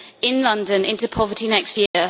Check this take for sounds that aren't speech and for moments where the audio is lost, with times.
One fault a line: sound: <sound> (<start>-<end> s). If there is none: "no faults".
sound: dropout (1.9-1.9 s)